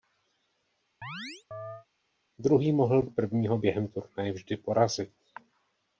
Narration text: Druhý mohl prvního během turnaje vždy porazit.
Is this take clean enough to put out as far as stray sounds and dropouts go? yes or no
no